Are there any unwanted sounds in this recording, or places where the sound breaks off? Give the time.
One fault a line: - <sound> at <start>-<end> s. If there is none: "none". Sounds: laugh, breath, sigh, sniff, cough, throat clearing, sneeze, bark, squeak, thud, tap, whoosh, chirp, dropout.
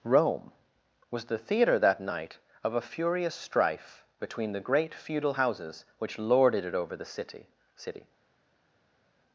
none